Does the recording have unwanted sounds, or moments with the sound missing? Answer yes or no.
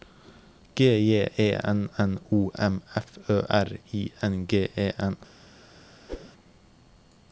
yes